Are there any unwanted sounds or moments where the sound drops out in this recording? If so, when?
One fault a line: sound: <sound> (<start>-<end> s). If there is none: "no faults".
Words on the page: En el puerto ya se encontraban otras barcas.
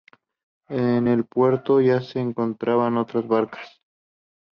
no faults